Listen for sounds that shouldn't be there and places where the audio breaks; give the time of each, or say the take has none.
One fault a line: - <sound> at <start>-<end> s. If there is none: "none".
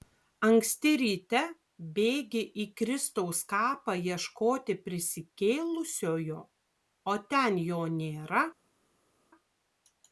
none